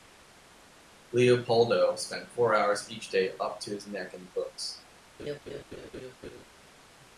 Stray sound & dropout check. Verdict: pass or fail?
fail